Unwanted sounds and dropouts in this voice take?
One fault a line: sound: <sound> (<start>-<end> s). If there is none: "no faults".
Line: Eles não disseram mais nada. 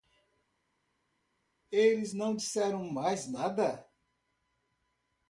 no faults